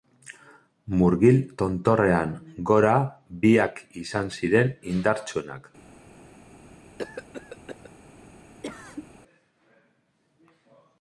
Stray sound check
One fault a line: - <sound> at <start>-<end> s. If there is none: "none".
- cough at 7.0-7.9 s
- cough at 8.6-9.1 s